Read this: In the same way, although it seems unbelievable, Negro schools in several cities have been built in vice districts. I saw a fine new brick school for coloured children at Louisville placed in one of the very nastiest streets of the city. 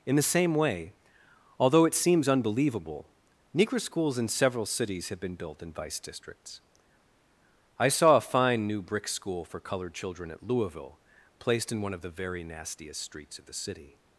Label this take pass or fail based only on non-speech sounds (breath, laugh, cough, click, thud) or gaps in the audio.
pass